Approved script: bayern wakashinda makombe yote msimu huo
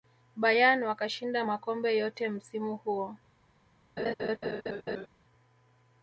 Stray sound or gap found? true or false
true